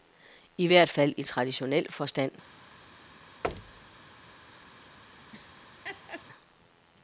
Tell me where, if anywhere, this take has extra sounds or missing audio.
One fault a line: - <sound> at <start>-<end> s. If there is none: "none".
- thud at 3.4-4.0 s
- laugh at 5.3-6.3 s